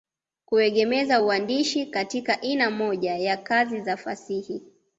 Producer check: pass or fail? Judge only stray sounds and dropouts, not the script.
pass